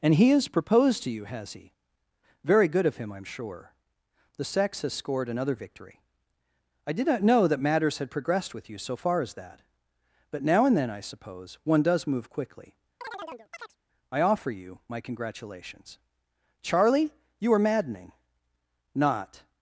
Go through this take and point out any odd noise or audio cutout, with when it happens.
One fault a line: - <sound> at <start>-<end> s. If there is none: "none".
- chirp at 13.0-13.8 s